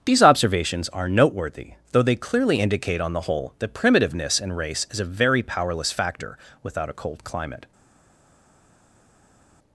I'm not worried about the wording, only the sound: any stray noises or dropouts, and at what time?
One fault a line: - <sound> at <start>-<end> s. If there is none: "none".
none